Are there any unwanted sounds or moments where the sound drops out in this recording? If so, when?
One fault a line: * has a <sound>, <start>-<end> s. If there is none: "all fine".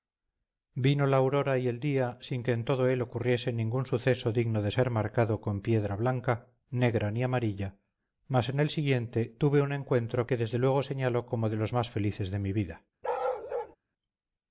* has a bark, 13.0-13.8 s